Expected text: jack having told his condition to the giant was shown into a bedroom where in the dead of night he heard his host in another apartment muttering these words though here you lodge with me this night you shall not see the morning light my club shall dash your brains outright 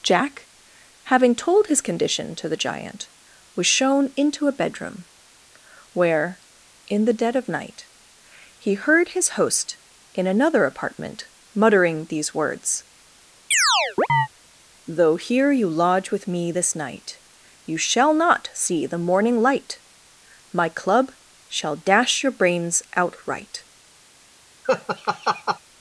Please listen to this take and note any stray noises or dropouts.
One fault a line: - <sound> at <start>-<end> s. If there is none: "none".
- chirp at 13.5-14.3 s
- laugh at 24.6-25.6 s